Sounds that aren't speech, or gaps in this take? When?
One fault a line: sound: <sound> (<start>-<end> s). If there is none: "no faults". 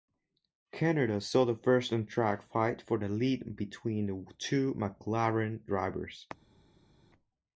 no faults